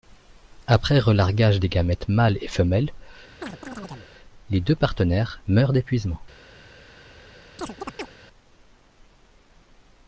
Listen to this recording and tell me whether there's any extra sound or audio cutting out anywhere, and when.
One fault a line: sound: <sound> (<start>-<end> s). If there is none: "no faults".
sound: chirp (3.4-4.1 s)
sound: chirp (7.6-8.1 s)